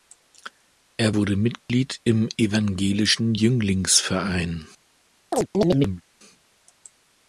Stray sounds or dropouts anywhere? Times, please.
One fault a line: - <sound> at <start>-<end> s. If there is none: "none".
- dropout at 1.6-1.7 s
- chirp at 5.3-6.0 s